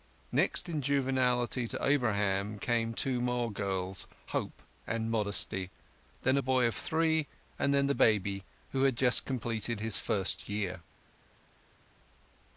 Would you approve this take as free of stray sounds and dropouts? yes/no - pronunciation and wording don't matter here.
yes